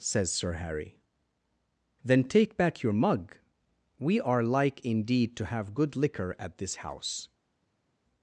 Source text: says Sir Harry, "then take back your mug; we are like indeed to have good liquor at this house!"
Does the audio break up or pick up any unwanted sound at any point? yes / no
no